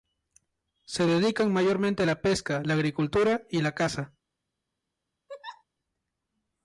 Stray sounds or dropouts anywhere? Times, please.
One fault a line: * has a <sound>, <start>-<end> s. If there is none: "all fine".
* has a laugh, 5.3-5.6 s